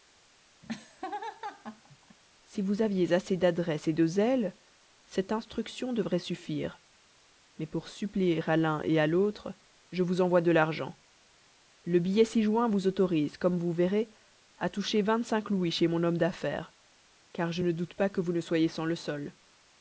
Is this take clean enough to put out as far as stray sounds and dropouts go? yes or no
no